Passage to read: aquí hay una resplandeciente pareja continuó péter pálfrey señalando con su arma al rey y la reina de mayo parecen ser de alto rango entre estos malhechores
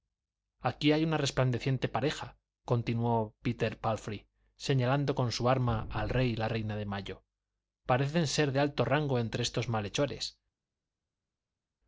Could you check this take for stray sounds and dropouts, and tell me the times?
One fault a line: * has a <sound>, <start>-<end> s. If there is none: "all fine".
all fine